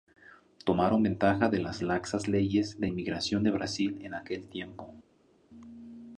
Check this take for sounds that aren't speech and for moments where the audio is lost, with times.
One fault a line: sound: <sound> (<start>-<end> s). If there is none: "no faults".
no faults